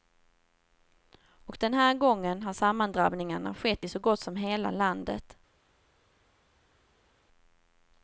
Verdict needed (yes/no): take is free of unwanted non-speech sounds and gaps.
yes